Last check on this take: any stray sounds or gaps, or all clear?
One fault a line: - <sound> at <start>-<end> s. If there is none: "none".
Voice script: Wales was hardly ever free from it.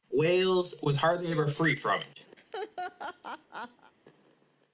- laugh at 2.4-3.9 s